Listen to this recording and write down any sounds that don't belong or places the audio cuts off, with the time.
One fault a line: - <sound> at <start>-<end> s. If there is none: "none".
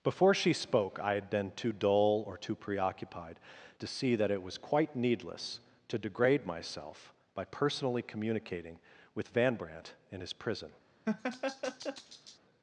- laugh at 11.1-12.4 s